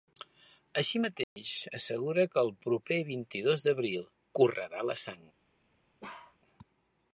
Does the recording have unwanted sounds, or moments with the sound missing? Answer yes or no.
yes